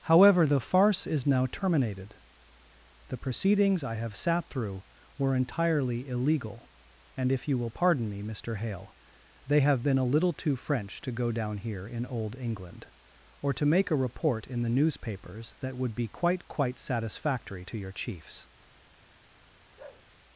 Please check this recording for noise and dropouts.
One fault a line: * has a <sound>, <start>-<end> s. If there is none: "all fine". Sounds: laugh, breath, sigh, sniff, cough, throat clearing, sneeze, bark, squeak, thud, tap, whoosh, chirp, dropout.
* has a bark, 19.8-20.1 s